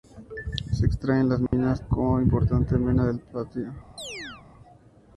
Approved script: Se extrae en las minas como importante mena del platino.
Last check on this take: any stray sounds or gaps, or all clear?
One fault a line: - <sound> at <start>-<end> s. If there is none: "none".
- dropout at 1.5-1.5 s
- chirp at 4.0-4.5 s